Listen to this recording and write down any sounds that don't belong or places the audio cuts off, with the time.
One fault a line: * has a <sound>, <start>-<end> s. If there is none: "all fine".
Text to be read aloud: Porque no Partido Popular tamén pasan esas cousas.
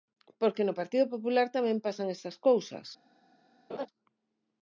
* has a laugh, 3.7-3.9 s